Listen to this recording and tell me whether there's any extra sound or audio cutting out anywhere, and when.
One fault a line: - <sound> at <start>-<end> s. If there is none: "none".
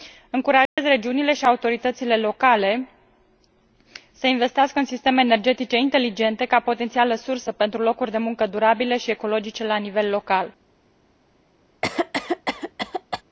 - dropout at 0.7-0.8 s
- cough at 11.8-13.2 s